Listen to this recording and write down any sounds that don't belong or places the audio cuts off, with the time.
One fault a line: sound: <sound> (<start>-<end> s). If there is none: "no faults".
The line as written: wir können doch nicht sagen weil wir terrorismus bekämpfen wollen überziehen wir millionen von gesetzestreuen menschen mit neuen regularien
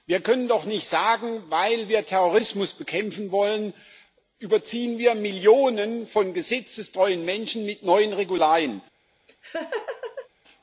sound: laugh (9.3-10.3 s)